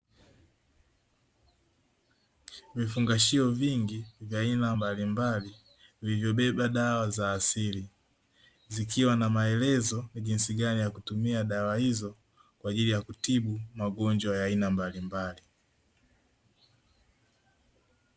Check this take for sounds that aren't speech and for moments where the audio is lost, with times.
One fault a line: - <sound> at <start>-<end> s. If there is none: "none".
none